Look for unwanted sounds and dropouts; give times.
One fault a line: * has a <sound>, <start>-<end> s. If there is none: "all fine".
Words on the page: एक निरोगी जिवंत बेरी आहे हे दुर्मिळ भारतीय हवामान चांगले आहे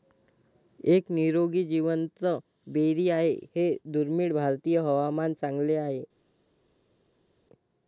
all fine